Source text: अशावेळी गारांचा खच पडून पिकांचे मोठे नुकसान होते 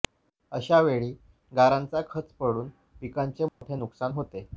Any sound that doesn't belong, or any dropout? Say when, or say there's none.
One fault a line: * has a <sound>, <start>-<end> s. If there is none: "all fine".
* has a dropout, 3.5-3.6 s